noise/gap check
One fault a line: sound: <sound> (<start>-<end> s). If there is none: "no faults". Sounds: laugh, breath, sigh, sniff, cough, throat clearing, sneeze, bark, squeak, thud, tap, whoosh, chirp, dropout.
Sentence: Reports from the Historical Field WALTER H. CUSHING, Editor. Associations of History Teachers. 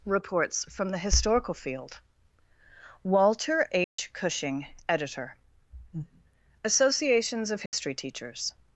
sound: dropout (3.8-4.0 s)
sound: dropout (7.7-7.7 s)